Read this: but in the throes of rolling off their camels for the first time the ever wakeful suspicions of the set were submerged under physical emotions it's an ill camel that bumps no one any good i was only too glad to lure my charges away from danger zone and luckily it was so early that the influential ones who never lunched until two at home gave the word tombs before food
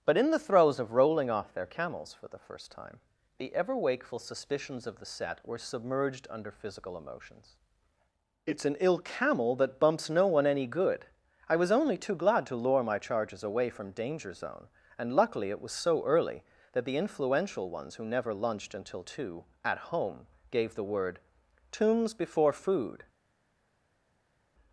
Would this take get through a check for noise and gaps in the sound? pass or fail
pass